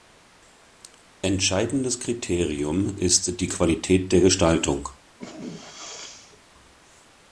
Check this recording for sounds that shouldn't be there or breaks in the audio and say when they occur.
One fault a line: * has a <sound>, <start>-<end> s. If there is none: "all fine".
* has a sneeze, 5.2-6.4 s